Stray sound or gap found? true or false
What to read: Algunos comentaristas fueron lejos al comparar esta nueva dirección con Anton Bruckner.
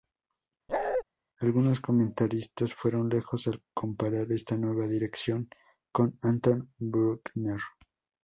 true